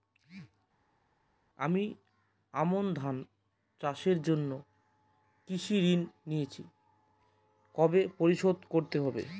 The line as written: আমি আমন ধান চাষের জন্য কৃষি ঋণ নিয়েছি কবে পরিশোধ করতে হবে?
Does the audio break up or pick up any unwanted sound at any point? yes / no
no